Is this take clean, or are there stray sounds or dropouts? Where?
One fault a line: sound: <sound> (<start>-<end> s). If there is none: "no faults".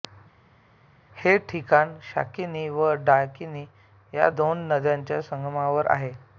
no faults